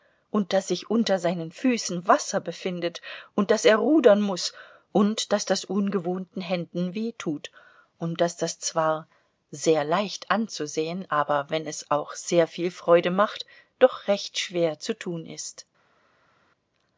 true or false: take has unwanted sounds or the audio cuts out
false